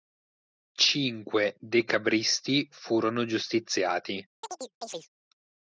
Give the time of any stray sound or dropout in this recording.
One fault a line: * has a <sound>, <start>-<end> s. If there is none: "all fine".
* has a chirp, 4.4-5.1 s